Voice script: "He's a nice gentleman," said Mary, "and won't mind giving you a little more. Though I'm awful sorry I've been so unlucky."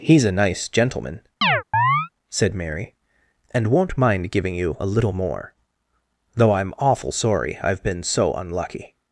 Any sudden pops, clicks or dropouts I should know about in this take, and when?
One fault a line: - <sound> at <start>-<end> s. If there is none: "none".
- chirp at 1.4-2.1 s